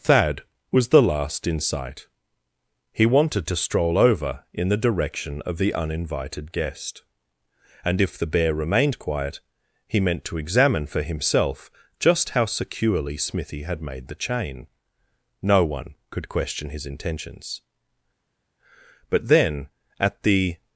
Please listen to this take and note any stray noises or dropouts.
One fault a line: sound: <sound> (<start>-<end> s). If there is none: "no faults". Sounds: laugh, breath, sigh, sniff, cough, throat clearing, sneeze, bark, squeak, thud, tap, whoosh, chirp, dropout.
no faults